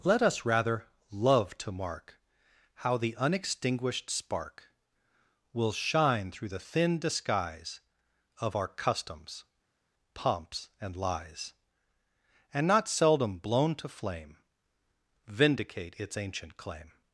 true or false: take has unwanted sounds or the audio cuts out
false